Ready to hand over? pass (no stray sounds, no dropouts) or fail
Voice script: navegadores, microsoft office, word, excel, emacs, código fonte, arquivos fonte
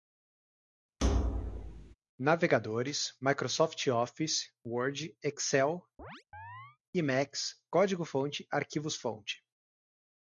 fail